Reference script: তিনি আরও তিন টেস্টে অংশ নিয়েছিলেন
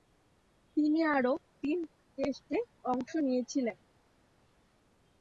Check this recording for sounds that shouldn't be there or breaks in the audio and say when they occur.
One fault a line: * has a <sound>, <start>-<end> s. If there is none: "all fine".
all fine